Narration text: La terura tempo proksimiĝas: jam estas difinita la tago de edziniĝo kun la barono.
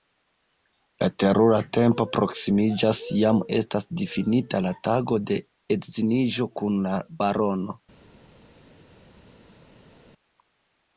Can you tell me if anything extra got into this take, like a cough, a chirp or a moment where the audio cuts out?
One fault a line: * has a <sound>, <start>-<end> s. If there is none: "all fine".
all fine